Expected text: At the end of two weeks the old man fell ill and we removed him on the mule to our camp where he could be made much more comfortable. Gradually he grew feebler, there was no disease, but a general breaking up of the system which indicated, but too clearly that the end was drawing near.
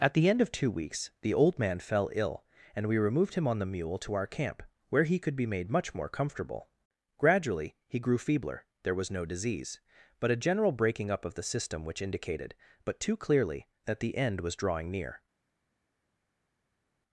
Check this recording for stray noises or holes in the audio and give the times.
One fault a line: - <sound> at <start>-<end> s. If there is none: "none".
none